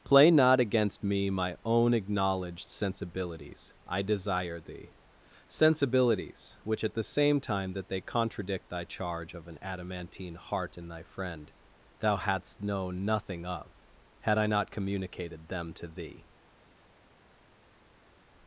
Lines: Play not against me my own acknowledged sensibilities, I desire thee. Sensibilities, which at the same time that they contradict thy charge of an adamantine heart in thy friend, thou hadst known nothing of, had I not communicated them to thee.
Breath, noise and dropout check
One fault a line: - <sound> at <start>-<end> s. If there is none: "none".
none